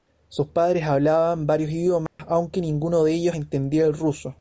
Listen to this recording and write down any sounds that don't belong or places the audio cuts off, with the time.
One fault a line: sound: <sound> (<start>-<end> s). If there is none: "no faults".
sound: dropout (2.1-2.2 s)